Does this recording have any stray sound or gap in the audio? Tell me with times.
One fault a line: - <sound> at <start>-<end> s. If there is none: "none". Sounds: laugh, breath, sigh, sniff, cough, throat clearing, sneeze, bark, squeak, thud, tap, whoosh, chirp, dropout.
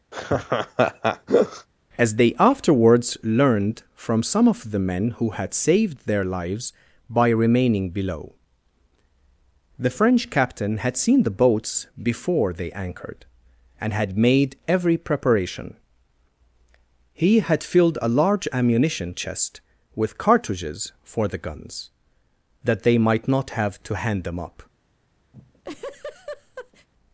- laugh at 0.1-1.7 s
- laugh at 25.3-26.9 s